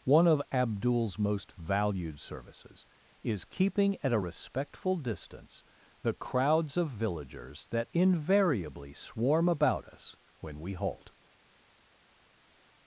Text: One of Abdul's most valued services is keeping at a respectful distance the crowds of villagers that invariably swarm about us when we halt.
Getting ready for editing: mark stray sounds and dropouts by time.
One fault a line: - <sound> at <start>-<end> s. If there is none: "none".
none